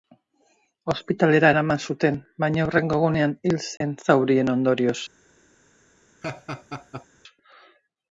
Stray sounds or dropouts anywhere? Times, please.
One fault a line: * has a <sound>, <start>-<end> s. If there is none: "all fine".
* has a dropout, 3.8-3.8 s
* has a laugh, 6.2-7.1 s